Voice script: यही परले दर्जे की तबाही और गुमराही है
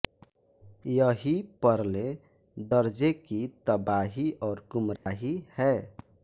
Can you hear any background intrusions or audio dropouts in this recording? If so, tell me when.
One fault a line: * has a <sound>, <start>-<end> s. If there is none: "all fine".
* has a dropout, 5.0-5.1 s